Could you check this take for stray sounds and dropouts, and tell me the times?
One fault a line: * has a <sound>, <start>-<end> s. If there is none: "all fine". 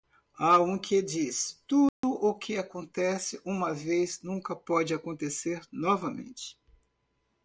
* has a dropout, 1.9-2.0 s